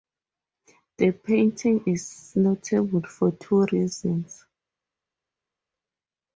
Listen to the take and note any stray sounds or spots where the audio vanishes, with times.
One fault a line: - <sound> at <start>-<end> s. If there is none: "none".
none